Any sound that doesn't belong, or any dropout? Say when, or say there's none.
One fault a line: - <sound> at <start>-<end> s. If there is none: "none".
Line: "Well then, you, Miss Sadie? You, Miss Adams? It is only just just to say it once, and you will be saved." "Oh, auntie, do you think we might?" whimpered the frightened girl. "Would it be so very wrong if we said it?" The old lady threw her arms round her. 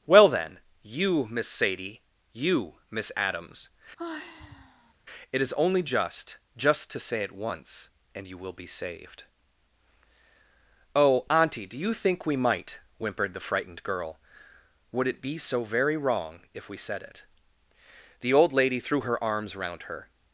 - sigh at 4.0-4.9 s